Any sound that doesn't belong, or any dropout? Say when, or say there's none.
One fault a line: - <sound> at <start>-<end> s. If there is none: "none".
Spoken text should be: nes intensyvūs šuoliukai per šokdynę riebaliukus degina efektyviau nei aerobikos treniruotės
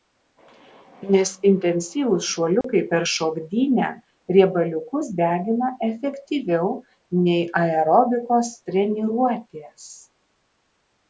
- dropout at 2.6-2.6 s